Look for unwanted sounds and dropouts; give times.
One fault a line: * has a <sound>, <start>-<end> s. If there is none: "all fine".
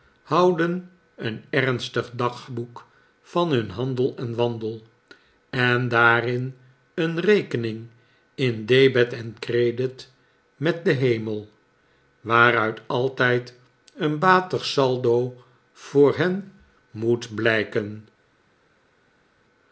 all fine